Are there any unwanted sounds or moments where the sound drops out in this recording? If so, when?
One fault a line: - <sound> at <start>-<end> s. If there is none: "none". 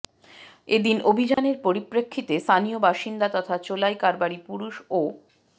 - dropout at 1.3-1.4 s